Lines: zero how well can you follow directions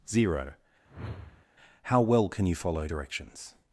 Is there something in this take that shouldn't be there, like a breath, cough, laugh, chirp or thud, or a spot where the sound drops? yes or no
yes